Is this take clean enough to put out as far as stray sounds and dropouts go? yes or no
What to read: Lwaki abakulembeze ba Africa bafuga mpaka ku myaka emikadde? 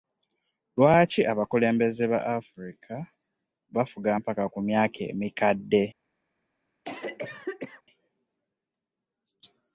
no